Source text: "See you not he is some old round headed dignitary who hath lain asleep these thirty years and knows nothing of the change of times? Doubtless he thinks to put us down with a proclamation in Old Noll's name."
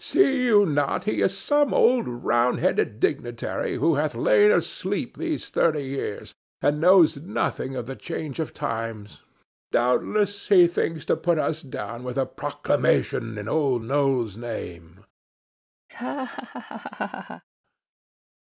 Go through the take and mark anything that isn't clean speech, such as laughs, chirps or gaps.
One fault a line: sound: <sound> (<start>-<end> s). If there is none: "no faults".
sound: laugh (15.9-17.4 s)